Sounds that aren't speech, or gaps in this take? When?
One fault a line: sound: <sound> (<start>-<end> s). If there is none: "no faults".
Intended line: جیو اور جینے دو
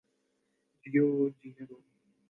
no faults